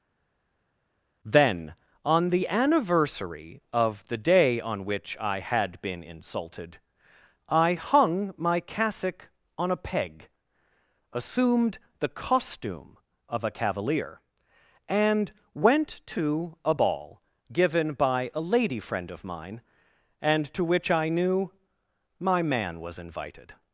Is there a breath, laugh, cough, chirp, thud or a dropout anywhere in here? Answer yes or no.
no